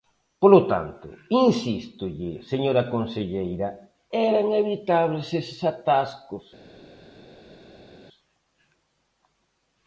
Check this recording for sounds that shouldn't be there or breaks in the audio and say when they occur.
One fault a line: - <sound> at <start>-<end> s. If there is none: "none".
none